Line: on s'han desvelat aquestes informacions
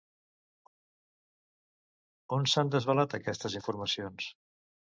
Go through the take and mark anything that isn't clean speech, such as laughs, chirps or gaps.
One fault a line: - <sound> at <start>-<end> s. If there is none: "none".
none